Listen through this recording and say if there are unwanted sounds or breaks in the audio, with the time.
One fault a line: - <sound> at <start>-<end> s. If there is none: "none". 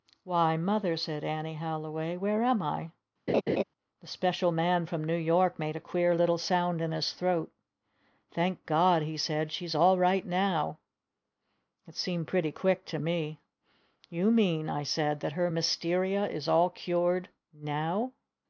- laugh at 3.3-3.6 s